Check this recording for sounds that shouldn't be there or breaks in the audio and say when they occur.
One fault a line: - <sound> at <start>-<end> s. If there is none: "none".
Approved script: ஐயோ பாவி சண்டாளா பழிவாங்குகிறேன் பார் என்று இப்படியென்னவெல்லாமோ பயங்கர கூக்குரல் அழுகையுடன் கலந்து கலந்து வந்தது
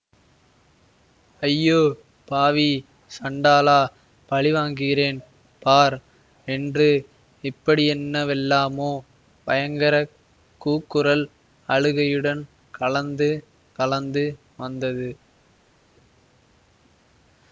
none